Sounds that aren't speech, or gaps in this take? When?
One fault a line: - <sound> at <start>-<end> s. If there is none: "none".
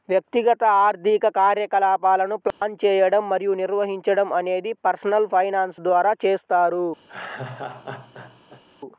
- dropout at 2.5-2.6 s
- laugh at 7.1-8.6 s